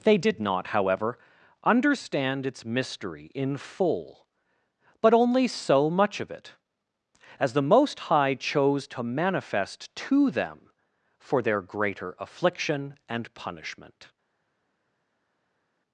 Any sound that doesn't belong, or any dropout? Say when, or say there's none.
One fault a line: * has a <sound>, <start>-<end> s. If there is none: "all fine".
all fine